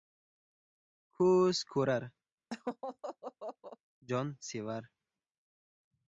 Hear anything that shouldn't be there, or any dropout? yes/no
yes